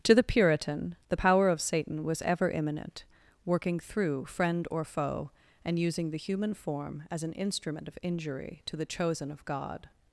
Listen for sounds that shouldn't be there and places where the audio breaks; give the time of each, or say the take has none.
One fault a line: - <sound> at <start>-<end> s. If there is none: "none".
none